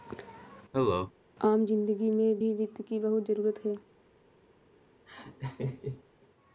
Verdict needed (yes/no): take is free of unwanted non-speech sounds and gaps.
no